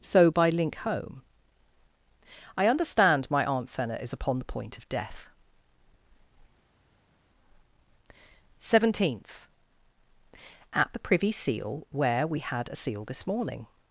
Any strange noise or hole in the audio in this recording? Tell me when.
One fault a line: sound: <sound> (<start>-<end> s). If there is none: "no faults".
no faults